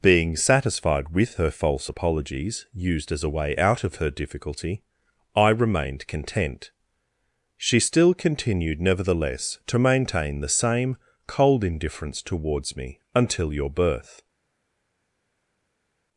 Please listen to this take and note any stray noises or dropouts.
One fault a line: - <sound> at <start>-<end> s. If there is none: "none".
none